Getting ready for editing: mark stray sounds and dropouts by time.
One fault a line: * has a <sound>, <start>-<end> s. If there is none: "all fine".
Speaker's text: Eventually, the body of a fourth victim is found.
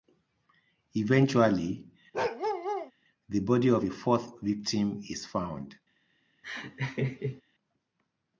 * has a bark, 2.1-2.9 s
* has a laugh, 6.4-7.4 s